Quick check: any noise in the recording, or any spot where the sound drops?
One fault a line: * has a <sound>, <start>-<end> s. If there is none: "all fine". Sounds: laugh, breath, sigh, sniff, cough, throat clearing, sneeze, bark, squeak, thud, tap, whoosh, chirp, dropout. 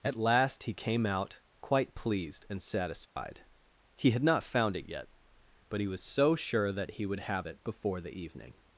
* has a dropout, 3.1-3.2 s